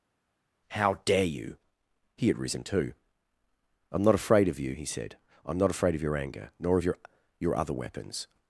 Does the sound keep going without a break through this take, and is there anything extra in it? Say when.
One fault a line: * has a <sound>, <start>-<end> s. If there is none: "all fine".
all fine